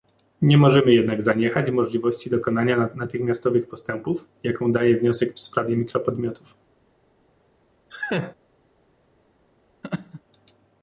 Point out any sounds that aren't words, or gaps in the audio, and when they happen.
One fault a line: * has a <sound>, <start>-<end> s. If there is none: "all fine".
* has a laugh, 7.9-8.4 s
* has a laugh, 9.8-10.2 s